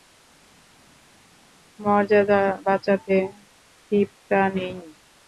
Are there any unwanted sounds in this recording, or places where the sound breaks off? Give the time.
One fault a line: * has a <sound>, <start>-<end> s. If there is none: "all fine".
all fine